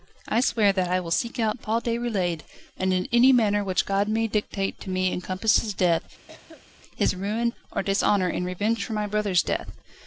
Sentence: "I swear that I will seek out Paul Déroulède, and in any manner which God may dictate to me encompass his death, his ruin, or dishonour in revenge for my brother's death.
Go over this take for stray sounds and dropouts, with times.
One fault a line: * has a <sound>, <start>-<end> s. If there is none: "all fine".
* has a cough, 6.3-6.7 s